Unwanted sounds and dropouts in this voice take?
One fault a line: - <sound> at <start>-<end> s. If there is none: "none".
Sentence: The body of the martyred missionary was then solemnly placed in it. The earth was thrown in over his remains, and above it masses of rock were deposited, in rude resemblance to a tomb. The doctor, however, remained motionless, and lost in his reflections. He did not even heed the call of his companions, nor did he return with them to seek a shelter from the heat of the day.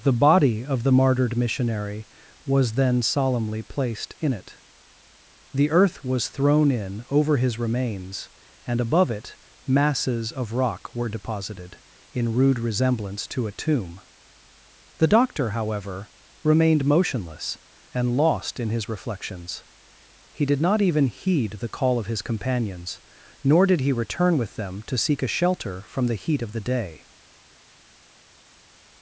none